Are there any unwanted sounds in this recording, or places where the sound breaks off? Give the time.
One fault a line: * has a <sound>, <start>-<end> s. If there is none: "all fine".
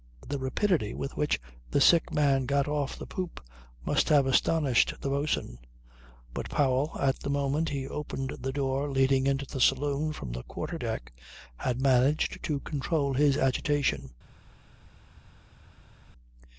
all fine